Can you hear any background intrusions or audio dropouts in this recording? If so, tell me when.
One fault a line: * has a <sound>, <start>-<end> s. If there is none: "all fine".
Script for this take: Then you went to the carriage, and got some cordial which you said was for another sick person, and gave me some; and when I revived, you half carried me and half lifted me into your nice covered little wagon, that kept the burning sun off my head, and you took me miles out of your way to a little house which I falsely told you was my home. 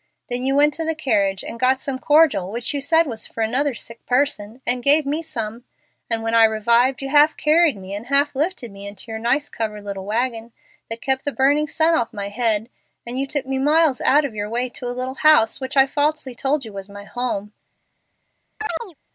* has a chirp, 18.6-18.9 s